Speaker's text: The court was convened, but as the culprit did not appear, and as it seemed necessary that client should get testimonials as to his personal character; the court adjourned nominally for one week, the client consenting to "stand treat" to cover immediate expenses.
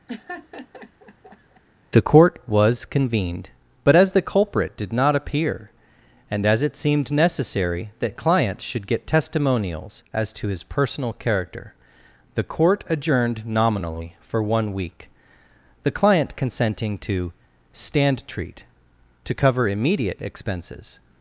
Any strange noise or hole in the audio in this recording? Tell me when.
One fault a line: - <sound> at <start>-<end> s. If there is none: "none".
- laugh at 0.1-1.6 s